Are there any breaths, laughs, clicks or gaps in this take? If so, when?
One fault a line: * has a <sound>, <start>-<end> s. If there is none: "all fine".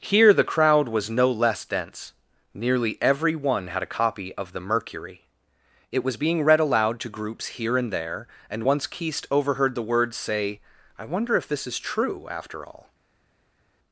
all fine